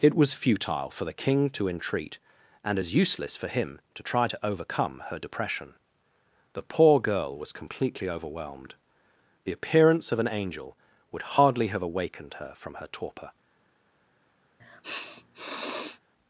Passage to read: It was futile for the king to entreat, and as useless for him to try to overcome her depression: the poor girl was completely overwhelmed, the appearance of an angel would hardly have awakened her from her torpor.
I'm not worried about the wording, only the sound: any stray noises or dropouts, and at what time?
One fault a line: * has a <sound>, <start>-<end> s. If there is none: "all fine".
* has a sniff, 14.6-16.0 s